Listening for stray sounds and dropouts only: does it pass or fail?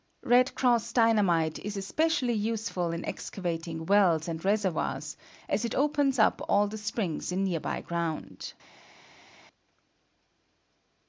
pass